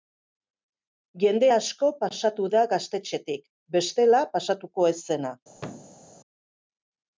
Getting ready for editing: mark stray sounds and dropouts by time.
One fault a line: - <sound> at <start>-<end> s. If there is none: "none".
- thud at 5.5-6.0 s